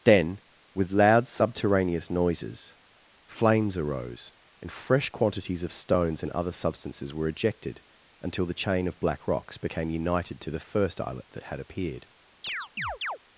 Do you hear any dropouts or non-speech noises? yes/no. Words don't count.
yes